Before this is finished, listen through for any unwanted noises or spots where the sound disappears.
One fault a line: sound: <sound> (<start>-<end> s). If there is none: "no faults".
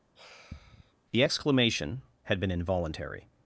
sound: sigh (0.2-0.9 s)